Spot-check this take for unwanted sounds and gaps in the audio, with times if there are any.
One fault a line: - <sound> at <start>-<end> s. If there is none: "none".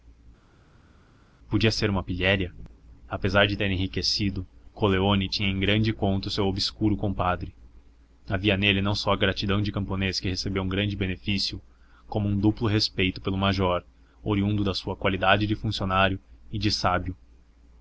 none